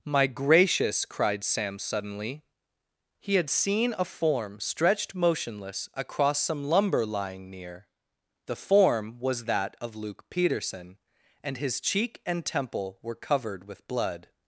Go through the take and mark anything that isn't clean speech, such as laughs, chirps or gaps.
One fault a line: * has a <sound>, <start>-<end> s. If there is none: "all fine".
all fine